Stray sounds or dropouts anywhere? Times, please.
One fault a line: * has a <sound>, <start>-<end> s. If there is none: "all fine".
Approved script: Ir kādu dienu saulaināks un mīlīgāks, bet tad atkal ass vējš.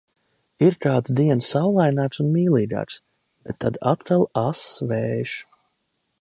all fine